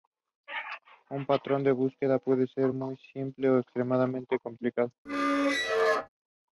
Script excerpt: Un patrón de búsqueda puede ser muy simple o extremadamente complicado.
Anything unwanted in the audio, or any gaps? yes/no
yes